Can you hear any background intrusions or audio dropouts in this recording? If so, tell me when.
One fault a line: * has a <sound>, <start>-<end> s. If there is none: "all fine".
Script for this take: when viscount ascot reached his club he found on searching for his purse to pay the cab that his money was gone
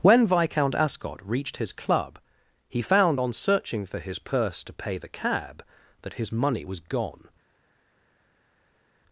all fine